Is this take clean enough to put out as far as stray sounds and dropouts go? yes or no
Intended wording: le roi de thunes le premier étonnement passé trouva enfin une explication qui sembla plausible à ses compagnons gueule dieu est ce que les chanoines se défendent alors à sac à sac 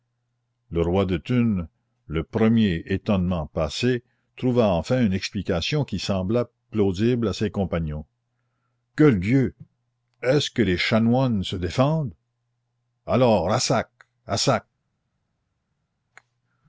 yes